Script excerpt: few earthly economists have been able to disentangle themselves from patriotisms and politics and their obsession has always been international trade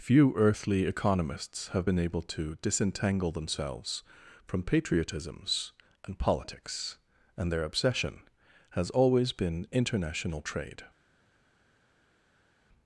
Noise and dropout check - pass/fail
pass